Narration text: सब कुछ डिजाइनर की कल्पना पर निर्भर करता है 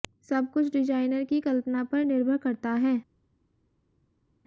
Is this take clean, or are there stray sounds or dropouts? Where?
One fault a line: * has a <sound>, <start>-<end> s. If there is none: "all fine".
all fine